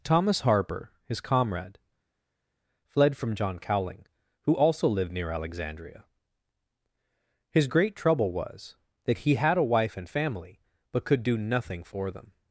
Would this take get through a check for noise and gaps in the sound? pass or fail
pass